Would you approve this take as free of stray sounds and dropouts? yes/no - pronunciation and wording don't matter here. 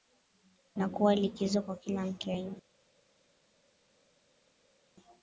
yes